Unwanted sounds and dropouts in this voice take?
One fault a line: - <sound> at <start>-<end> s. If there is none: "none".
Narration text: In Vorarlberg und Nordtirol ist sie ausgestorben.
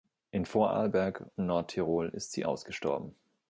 none